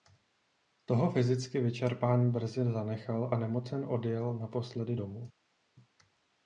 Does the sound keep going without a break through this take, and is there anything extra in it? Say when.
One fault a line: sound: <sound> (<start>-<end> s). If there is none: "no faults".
no faults